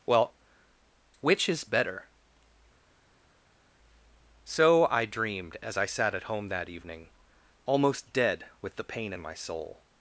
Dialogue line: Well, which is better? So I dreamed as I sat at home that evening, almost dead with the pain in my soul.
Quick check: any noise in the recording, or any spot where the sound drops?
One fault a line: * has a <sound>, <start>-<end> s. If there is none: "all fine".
all fine